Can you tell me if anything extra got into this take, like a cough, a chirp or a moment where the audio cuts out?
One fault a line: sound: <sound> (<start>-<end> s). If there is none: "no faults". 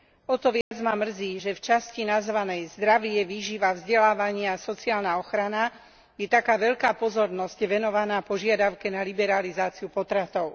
sound: dropout (0.6-0.7 s)